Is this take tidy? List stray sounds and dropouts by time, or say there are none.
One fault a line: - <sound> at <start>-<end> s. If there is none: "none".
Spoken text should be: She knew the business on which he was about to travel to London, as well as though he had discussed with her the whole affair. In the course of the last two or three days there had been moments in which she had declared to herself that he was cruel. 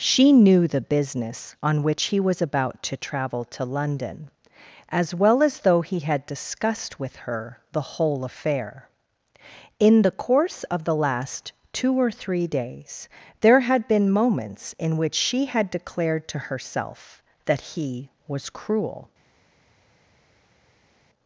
none